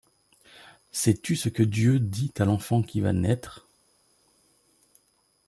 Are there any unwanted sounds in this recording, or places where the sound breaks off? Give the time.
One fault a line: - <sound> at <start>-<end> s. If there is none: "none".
none